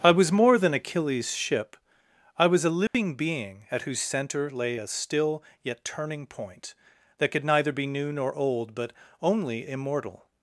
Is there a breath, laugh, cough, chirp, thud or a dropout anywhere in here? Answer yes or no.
yes